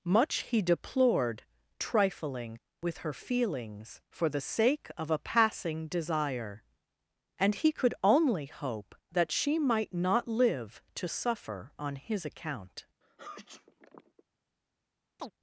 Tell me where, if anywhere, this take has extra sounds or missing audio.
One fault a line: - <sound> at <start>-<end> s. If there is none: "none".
- sneeze at 13.0-14.2 s
- chirp at 15.2-15.3 s